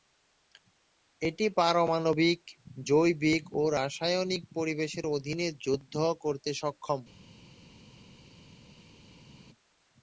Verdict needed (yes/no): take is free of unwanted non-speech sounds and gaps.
yes